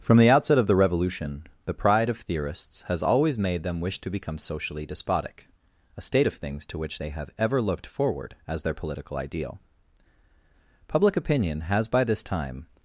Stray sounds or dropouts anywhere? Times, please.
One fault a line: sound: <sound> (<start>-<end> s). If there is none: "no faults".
no faults